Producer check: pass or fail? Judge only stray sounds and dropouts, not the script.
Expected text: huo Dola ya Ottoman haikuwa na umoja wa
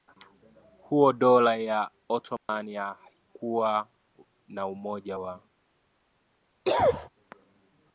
fail